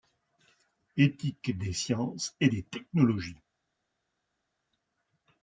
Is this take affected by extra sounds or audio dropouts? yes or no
no